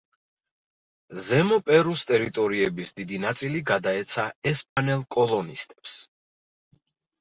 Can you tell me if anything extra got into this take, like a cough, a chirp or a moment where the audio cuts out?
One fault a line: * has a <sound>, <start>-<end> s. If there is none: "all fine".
* has a dropout, 4.7-4.8 s